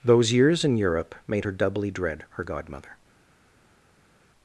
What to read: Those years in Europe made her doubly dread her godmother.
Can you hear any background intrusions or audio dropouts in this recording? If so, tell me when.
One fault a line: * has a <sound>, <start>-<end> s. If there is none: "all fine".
all fine